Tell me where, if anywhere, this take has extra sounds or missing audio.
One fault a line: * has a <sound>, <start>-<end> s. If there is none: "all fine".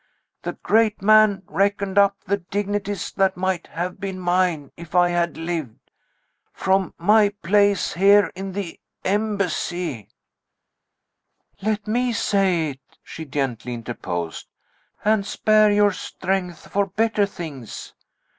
all fine